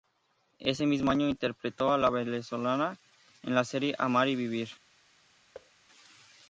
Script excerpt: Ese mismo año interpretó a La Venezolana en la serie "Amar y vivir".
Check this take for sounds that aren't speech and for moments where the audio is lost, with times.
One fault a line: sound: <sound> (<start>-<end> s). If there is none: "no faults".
sound: thud (5.5-5.7 s)